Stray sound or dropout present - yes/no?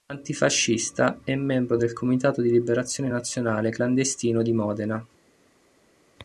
no